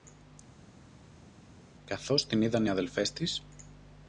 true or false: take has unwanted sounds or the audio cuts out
false